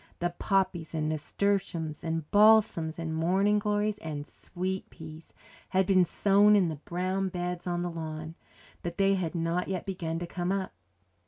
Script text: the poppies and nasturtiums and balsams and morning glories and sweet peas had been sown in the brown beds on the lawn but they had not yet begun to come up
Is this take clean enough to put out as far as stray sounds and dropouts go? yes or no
yes